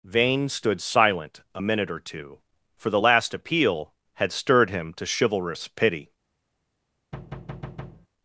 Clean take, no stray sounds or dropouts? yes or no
no